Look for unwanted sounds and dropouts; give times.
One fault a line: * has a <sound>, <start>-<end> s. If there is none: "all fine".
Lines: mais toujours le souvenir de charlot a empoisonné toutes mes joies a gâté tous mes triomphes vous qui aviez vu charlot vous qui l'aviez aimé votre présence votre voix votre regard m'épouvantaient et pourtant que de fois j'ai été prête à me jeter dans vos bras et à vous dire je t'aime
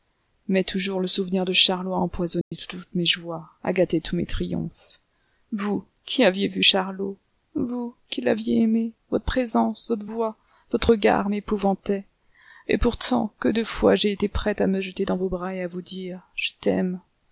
* has a dropout, 2.4-2.5 s